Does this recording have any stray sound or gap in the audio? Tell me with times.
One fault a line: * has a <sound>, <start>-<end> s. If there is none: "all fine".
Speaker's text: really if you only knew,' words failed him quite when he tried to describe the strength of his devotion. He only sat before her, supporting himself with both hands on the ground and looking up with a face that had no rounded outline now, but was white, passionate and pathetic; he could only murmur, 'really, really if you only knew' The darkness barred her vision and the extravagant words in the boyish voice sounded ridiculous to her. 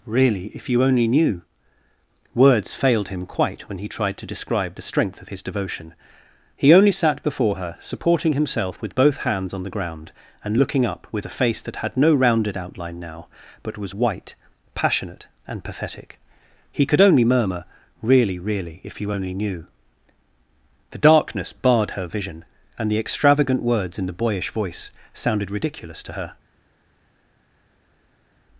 all fine